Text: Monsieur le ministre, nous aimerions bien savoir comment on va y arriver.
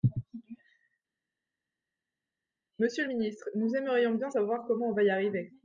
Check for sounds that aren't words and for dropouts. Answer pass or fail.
pass